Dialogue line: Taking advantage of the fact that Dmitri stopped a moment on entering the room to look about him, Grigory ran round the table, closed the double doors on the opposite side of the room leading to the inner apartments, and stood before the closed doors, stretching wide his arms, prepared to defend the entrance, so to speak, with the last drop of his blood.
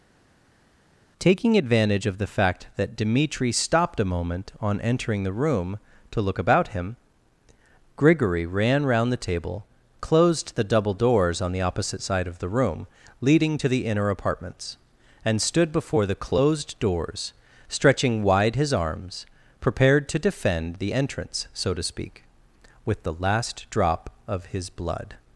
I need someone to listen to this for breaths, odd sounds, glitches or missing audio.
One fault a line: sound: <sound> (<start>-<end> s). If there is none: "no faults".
no faults